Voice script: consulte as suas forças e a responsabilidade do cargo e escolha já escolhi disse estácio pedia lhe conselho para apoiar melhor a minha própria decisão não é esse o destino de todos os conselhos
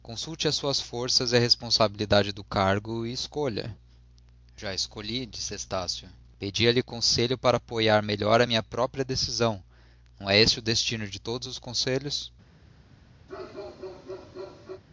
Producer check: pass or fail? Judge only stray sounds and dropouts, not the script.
fail